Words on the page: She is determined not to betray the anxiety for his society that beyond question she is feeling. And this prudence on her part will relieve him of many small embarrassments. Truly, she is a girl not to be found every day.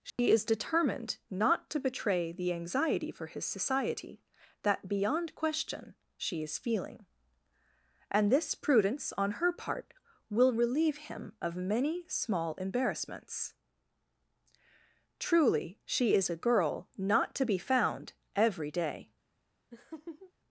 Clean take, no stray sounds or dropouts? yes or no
no